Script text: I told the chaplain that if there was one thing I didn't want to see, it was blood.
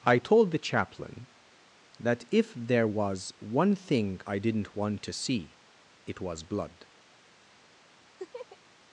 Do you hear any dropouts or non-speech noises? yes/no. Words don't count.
yes